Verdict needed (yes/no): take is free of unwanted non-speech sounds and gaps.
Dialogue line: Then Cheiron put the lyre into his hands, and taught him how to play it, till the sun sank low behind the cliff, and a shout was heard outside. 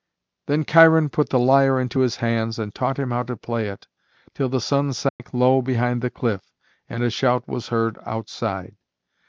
no